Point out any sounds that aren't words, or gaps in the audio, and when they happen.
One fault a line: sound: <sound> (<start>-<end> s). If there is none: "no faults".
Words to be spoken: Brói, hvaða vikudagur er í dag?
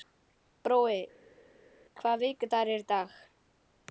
no faults